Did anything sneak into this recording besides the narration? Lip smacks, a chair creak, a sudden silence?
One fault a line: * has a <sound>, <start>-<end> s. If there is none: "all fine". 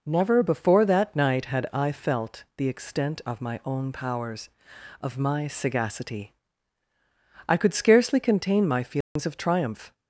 * has a dropout, 9.0-9.2 s